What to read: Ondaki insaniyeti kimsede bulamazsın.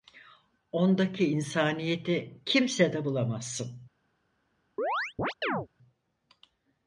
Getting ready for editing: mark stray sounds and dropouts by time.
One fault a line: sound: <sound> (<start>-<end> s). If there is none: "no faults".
sound: chirp (4.8-5.7 s)